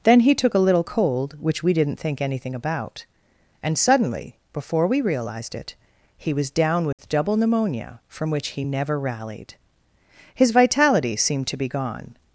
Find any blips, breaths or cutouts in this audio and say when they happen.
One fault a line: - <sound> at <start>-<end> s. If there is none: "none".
- dropout at 6.9-7.0 s